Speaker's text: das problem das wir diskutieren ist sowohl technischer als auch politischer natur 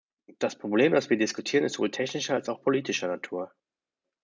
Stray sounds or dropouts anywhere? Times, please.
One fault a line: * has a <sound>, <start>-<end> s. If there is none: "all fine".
all fine